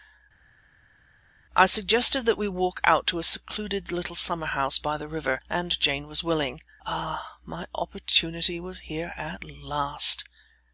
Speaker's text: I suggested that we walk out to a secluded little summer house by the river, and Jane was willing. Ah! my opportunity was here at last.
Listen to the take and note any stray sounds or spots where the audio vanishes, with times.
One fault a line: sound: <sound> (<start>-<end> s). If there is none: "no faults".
no faults